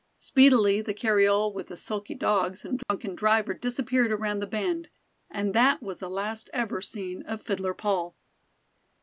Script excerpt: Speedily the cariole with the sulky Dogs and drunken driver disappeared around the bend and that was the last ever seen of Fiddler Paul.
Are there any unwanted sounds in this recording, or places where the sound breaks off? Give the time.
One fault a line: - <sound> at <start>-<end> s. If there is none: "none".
- dropout at 2.8-2.9 s